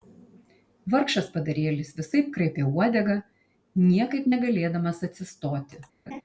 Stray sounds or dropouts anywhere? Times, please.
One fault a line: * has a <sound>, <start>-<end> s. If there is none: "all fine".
* has a laugh, 6.1-6.2 s